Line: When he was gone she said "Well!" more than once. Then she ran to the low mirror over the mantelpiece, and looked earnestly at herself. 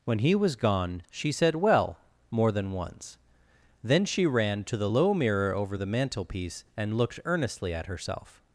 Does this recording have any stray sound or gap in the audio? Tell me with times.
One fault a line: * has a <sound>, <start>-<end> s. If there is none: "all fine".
all fine